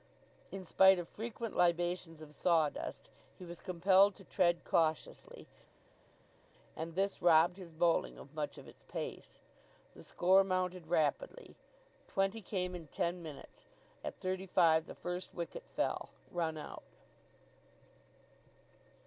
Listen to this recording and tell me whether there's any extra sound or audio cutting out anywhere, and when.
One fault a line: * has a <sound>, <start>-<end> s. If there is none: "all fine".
all fine